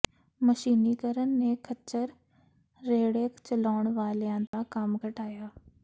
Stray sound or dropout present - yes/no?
yes